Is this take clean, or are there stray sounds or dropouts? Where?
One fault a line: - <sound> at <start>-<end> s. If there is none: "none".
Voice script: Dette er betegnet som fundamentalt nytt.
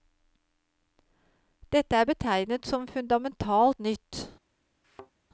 - thud at 4.8-5.1 s